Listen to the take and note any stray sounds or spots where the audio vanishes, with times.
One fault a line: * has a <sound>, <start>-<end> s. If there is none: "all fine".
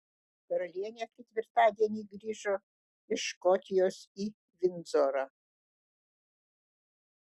all fine